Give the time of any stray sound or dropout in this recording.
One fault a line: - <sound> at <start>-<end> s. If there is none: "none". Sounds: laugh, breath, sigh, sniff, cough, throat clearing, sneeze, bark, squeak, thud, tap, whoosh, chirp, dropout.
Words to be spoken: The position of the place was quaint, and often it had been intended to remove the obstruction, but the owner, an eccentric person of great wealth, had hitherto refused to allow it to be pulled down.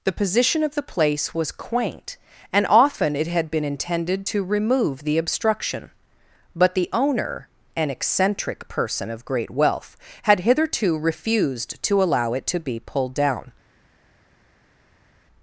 none